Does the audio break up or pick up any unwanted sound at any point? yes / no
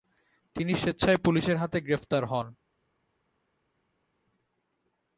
no